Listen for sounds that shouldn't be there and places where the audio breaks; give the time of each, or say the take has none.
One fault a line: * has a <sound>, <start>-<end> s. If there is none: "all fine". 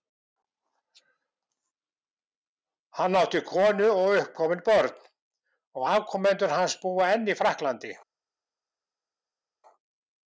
all fine